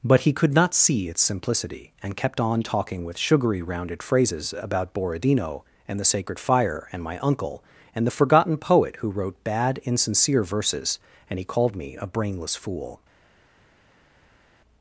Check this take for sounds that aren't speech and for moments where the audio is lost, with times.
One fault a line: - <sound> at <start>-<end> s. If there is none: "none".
none